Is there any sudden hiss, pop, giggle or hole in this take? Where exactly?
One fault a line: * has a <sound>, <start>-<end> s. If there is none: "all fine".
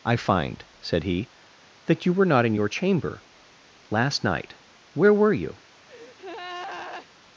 * has a breath, 5.9-7.1 s